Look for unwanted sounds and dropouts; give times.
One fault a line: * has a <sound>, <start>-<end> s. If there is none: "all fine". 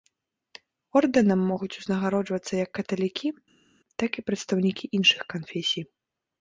all fine